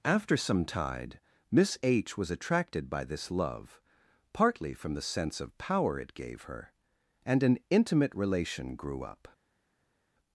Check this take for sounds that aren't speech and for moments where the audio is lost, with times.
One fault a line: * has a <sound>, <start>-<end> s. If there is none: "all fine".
all fine